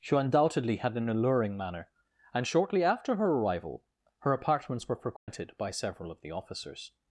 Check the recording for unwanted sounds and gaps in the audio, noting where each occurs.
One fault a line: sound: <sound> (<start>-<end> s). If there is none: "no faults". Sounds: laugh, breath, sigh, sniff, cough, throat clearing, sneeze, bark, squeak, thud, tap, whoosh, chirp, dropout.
sound: dropout (5.2-5.3 s)